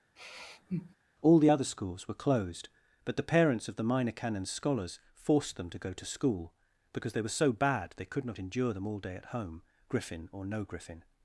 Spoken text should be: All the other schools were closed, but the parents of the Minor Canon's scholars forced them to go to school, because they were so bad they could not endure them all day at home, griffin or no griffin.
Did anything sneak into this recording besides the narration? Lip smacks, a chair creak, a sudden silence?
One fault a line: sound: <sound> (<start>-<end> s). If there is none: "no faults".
sound: sigh (0.2-1.0 s)